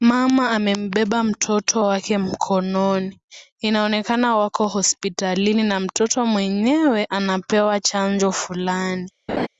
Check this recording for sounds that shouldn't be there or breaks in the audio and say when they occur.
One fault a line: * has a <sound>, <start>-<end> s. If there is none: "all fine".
* has a laugh, 9.3-9.5 s